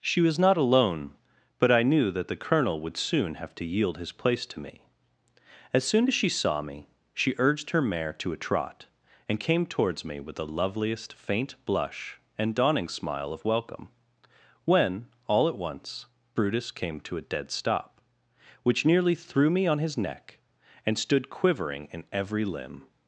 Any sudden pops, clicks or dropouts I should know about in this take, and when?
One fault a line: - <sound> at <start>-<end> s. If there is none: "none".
none